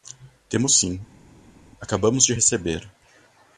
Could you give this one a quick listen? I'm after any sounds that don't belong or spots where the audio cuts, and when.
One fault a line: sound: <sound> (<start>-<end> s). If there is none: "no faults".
no faults